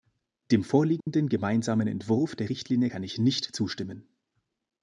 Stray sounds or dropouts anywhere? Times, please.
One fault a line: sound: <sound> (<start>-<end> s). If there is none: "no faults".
sound: dropout (1.0-1.1 s)